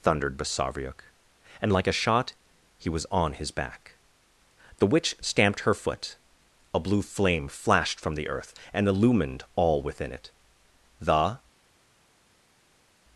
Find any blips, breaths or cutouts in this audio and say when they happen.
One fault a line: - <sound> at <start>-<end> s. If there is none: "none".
none